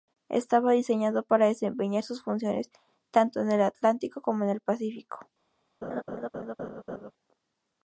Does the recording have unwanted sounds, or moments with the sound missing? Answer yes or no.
yes